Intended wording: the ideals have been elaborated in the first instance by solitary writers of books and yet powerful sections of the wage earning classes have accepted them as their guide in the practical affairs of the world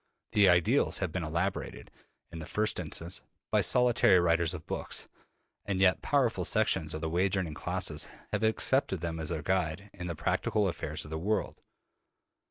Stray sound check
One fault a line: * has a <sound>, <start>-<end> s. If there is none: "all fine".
all fine